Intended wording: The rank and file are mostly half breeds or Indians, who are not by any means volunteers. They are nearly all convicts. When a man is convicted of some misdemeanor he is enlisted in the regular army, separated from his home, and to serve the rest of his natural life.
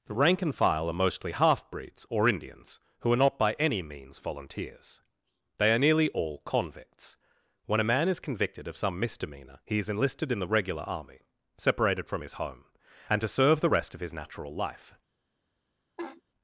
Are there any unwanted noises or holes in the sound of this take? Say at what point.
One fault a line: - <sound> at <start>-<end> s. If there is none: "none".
- laugh at 16.0-16.2 s